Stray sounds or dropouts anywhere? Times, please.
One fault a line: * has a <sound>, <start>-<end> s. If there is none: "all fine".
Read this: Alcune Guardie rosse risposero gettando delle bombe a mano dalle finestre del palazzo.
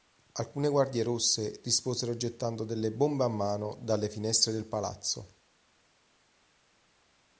all fine